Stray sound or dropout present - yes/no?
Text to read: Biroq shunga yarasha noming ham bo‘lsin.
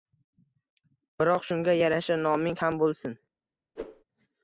yes